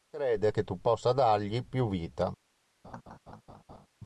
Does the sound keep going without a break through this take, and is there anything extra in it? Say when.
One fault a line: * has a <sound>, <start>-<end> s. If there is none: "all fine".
* has a laugh, 2.8-3.9 s